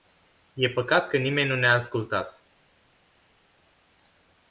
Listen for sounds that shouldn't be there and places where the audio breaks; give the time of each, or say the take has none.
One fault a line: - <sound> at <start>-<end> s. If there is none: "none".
none